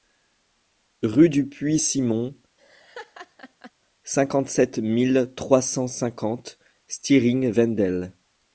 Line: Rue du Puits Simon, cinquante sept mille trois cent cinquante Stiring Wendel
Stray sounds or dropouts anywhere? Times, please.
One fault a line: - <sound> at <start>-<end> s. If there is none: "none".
- laugh at 2.6-3.7 s